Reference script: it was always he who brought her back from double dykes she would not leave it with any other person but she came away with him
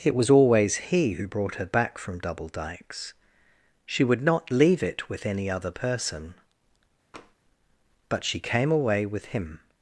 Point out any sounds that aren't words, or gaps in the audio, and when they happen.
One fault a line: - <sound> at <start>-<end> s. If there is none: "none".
- tap at 7.1-7.3 s